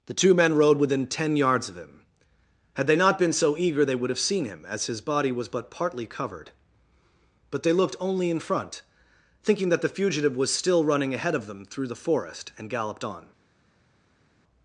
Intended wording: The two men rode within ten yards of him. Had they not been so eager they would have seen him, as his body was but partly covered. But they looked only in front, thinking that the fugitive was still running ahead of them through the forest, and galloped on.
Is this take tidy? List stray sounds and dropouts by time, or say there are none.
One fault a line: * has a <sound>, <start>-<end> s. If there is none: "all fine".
all fine